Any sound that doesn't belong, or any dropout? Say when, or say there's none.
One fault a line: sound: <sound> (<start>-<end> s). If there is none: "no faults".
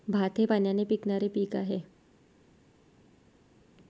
no faults